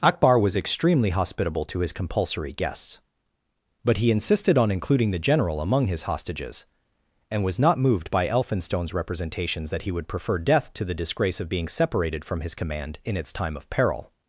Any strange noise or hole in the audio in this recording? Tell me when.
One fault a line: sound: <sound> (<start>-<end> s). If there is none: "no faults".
no faults